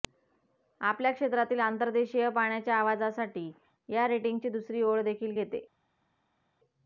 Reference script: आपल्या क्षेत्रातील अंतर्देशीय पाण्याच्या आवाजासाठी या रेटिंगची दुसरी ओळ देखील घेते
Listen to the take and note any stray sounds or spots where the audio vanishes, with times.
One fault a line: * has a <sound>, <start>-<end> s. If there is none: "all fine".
all fine